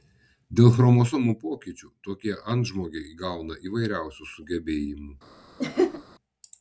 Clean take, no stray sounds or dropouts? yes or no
no